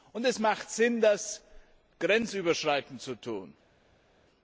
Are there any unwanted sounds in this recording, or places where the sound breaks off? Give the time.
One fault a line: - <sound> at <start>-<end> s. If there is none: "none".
none